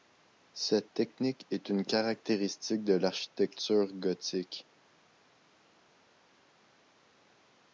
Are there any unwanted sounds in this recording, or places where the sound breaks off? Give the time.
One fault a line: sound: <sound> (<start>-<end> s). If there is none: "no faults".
no faults